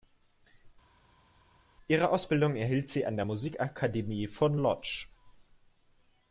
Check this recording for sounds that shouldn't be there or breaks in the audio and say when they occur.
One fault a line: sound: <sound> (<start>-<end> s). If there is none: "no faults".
no faults